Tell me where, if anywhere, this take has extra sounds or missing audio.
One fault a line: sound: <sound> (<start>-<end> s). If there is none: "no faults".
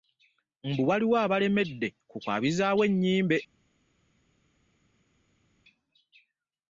no faults